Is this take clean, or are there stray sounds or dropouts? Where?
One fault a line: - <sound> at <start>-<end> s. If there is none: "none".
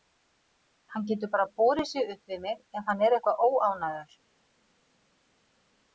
none